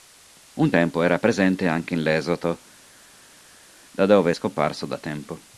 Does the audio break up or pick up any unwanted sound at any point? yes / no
no